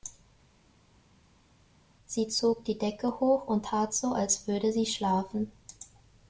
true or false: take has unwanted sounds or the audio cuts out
false